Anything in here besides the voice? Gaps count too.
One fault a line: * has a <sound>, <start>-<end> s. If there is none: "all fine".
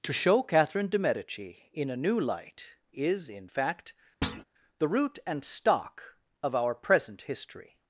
* has a thud, 4.2-4.4 s